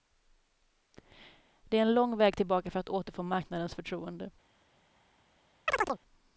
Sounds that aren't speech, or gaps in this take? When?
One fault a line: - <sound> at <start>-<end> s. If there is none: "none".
- chirp at 5.7-6.0 s